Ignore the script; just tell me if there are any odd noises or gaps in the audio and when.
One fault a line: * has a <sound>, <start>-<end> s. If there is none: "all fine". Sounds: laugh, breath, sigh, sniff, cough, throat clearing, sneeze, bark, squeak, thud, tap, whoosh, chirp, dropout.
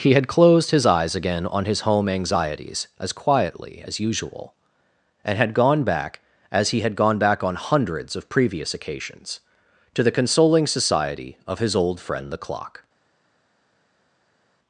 all fine